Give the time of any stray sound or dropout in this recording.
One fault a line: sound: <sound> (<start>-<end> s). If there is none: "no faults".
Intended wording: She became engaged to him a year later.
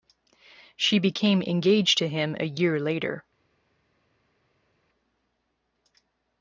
no faults